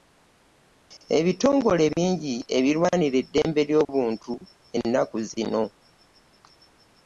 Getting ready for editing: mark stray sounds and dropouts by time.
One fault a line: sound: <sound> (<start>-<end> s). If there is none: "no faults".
no faults